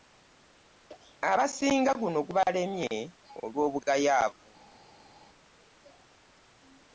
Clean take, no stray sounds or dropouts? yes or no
yes